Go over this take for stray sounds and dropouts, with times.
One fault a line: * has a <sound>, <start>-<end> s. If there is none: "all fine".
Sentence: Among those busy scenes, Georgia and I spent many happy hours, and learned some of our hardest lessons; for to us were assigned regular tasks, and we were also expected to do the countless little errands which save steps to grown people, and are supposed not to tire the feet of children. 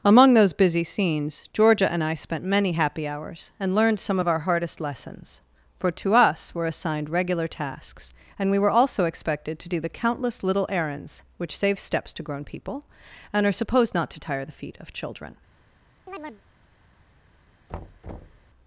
* has a chirp, 16.1-16.4 s
* has a thud, 17.7-18.5 s